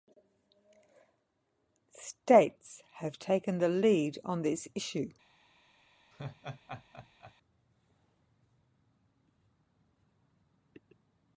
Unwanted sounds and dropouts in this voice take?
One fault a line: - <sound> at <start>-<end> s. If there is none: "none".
- laugh at 6.1-7.3 s